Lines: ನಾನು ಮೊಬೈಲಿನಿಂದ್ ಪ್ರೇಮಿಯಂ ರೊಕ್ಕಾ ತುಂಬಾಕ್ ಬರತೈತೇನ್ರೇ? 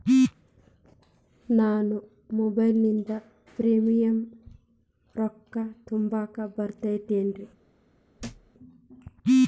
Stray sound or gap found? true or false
true